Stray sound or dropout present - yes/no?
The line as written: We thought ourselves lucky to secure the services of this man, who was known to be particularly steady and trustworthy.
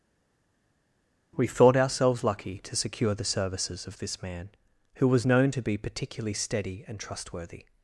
no